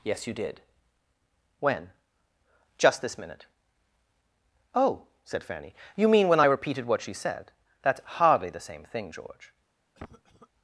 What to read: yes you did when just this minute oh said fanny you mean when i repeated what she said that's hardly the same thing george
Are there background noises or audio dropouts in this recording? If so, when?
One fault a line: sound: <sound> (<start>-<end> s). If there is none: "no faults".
sound: cough (9.9-10.5 s)